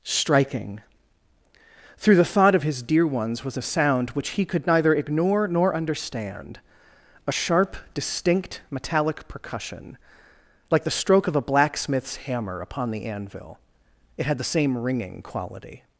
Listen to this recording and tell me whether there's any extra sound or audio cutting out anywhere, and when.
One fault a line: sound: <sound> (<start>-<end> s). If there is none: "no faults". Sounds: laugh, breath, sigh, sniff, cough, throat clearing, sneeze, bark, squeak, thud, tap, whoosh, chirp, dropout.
no faults